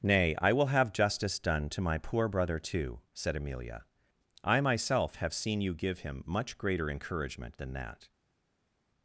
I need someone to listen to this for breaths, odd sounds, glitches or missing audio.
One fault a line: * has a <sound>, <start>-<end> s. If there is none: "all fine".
all fine